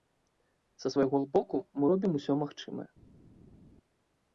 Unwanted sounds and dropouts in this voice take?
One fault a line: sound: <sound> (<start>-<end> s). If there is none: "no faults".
no faults